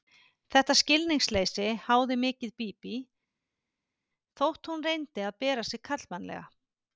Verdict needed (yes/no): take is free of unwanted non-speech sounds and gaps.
yes